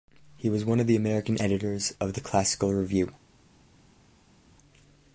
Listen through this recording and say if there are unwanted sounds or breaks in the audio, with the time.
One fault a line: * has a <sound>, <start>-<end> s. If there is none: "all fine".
all fine